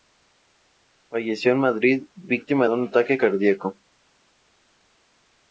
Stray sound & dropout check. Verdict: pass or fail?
pass